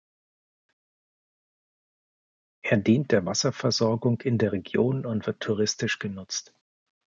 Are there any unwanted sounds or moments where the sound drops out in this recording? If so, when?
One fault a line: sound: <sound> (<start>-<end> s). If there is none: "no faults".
no faults